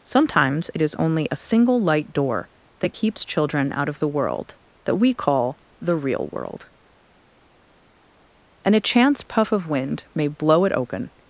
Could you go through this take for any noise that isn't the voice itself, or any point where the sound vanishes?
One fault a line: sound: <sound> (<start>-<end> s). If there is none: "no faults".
no faults